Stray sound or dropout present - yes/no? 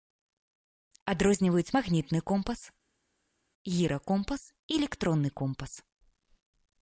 no